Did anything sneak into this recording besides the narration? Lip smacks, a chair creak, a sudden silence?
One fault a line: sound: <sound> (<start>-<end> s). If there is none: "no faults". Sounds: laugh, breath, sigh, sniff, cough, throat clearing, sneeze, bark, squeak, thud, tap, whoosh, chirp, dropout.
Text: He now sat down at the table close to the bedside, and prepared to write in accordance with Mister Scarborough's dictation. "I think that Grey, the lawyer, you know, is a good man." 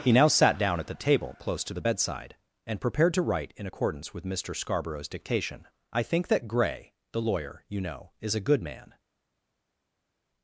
no faults